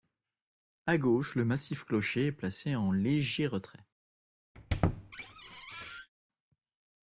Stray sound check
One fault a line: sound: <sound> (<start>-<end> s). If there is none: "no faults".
sound: squeak (4.5-6.1 s)